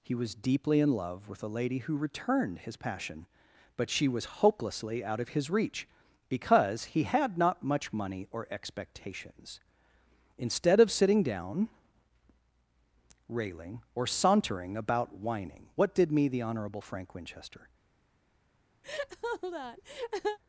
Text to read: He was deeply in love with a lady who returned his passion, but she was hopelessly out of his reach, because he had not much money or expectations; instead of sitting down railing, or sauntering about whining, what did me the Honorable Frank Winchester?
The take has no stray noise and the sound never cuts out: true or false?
false